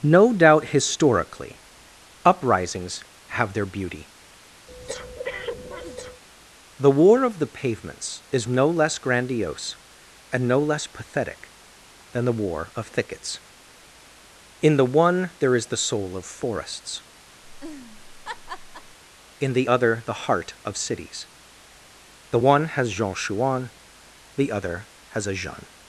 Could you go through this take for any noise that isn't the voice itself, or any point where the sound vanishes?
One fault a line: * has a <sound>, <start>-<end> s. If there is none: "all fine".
* has a breath, 4.7-6.2 s
* has a laugh, 17.4-19.0 s